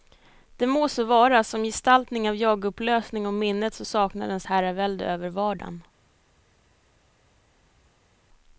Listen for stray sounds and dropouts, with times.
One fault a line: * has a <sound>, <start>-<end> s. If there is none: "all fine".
all fine